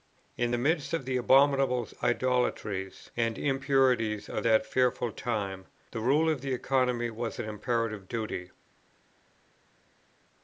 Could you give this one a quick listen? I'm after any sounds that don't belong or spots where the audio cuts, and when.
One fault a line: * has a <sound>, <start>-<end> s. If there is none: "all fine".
all fine